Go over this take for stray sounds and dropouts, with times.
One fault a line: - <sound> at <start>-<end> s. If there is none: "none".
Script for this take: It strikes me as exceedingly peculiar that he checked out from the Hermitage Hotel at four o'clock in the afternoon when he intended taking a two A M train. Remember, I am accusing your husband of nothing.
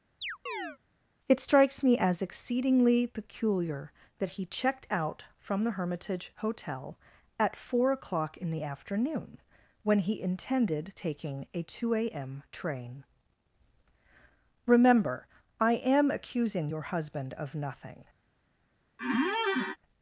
- chirp at 0.2-0.8 s
- squeak at 19.0-19.8 s